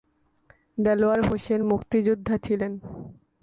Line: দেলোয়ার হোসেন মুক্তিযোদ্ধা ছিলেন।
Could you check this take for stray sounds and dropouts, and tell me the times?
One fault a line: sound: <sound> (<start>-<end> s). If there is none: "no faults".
no faults